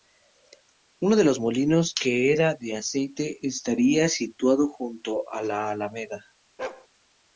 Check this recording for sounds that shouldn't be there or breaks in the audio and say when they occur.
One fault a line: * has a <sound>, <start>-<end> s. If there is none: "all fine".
* has a bark, 6.6-6.9 s